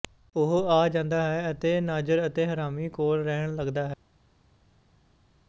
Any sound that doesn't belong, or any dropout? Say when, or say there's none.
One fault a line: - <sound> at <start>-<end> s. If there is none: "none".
none